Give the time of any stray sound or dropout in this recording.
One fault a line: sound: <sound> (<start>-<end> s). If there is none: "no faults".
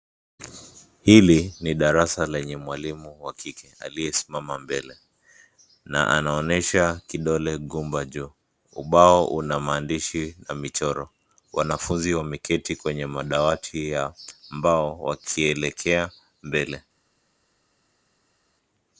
no faults